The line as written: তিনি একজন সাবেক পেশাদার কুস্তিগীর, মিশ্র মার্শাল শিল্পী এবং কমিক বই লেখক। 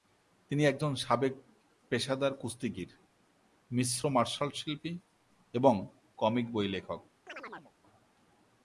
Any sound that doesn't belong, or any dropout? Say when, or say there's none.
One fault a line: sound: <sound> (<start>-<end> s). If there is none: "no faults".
sound: chirp (7.3-7.7 s)